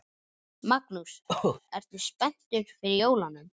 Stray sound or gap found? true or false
true